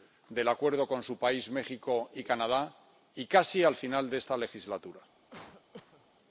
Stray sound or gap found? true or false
true